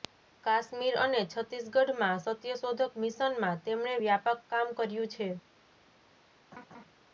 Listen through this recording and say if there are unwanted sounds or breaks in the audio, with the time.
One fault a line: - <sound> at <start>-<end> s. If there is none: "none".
- laugh at 6.5-6.8 s